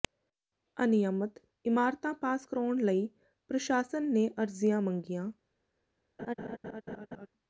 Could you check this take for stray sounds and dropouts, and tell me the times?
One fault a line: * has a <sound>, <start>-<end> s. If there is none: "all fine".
* has a laugh, 6.2-7.3 s